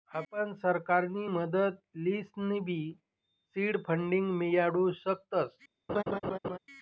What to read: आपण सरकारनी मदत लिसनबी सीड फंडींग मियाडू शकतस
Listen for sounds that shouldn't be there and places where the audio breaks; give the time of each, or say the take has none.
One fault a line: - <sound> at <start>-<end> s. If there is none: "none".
- laugh at 5.9-6.6 s